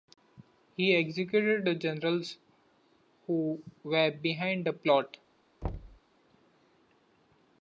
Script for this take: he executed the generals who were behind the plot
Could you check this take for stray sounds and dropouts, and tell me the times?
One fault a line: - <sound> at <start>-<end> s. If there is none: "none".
- thud at 5.6-6.0 s